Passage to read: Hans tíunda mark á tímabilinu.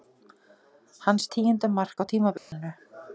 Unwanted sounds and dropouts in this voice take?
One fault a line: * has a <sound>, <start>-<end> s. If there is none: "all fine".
* has a dropout, 2.4-2.5 s